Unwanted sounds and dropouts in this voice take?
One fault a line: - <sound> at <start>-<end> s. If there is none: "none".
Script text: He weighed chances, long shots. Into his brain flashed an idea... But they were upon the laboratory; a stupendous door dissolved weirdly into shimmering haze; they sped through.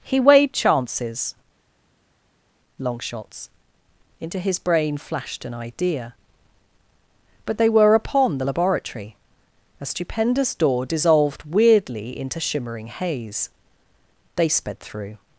none